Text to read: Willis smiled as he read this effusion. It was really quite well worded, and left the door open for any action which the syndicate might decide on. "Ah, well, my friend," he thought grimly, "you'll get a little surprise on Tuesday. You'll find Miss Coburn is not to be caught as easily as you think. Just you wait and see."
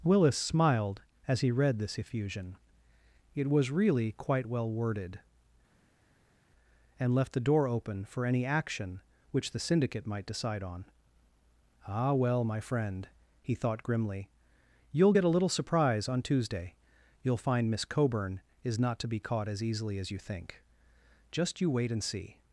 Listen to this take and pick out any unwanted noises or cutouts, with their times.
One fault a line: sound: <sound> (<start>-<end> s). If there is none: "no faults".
no faults